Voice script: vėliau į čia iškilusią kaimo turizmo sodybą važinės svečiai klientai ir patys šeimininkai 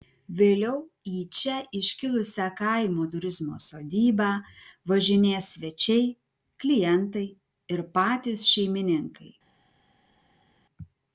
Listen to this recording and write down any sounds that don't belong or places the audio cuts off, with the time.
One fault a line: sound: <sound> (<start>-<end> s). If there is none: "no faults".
no faults